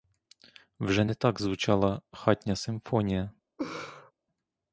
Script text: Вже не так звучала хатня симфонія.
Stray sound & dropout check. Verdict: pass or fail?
fail